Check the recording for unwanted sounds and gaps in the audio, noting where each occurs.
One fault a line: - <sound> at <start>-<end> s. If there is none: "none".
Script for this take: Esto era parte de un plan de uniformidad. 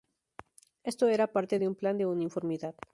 none